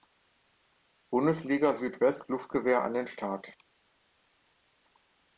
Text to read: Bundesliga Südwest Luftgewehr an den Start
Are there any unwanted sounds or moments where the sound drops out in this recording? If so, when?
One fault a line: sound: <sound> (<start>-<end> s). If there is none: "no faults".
no faults